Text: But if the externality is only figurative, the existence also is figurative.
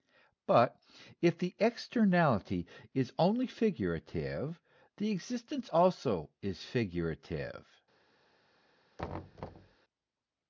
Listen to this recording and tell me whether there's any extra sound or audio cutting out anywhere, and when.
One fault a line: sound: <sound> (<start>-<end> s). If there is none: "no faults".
sound: thud (9.0-9.8 s)